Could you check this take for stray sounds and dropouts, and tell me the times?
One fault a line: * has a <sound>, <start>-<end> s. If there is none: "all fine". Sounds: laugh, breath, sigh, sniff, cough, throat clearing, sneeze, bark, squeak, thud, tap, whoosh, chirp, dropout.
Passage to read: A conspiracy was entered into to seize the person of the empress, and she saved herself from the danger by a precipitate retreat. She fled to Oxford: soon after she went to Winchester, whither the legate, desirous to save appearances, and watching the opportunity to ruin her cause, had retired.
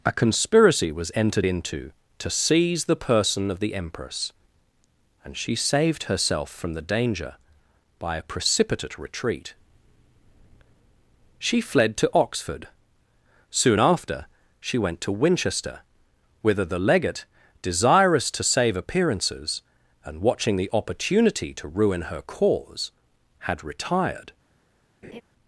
* has a laugh, 25.0-25.2 s